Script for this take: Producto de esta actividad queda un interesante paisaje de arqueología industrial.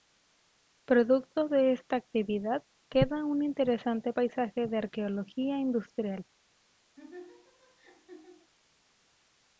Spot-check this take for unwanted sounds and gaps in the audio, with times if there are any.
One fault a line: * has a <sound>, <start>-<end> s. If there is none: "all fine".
* has a laugh, 7.0-8.5 s